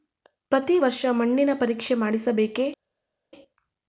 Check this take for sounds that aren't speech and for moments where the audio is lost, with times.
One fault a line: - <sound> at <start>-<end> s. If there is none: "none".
none